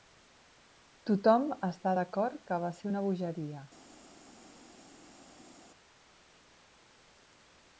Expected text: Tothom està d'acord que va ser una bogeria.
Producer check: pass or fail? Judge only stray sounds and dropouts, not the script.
pass